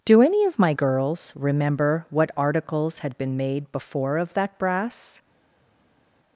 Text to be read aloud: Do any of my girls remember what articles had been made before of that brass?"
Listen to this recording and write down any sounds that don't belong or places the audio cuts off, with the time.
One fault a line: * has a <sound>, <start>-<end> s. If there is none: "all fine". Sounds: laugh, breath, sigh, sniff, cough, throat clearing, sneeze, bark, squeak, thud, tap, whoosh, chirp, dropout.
all fine